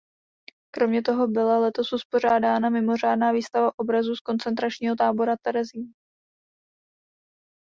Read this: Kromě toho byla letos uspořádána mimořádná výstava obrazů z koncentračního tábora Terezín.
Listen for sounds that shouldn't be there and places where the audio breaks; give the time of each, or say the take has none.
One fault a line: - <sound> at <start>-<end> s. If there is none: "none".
none